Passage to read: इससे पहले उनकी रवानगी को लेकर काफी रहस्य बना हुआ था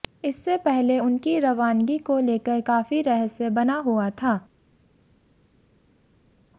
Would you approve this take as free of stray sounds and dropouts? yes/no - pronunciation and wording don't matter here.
yes